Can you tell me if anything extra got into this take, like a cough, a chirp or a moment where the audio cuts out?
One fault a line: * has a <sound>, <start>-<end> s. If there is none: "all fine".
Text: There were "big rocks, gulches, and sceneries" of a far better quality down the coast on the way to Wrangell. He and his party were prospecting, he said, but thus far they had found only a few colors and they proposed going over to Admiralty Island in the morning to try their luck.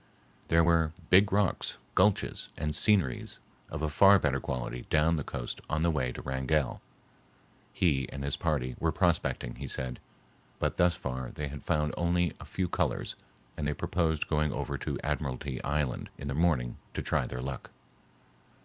all fine